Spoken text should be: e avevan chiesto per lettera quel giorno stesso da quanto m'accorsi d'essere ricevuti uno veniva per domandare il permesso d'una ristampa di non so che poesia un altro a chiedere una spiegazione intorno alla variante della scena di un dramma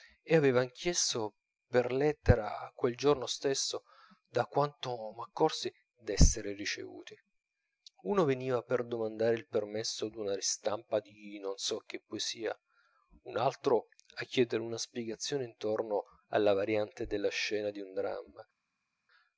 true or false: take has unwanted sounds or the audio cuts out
false